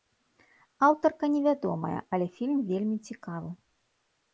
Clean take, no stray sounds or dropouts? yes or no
yes